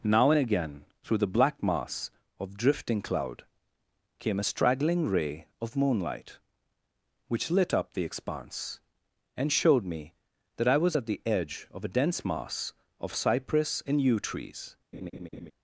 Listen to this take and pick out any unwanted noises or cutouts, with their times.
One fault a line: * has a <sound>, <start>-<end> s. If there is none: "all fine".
* has a laugh, 14.9-15.5 s